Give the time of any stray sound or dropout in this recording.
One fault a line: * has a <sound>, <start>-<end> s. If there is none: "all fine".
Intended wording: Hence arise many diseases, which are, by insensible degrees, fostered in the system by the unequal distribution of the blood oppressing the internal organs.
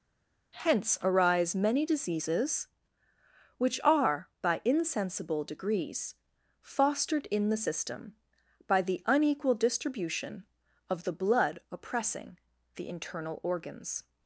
all fine